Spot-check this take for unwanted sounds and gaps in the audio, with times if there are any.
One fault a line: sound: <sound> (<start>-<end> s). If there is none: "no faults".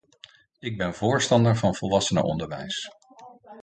no faults